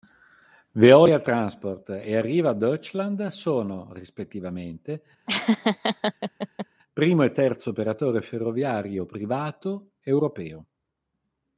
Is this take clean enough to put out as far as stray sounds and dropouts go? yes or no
no